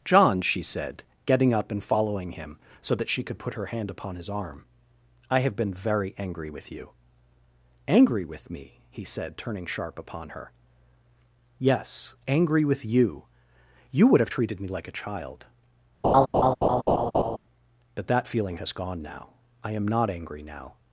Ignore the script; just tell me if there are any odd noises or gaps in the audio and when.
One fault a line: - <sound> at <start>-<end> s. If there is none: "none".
- laugh at 16.0-17.4 s